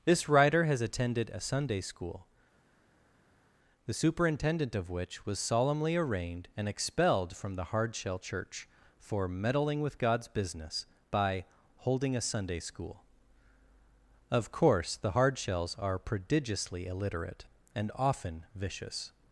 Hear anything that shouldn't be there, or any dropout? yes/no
no